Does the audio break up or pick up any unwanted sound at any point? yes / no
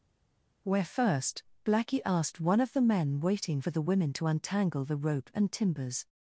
no